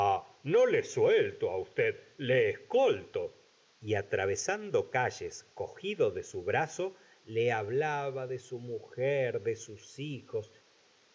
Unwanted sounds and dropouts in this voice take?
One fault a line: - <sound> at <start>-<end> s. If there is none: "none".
none